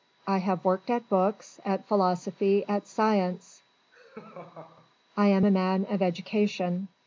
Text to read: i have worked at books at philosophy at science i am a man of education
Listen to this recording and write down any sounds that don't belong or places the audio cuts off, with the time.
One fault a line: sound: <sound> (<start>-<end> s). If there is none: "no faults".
sound: laugh (3.9-5.0 s)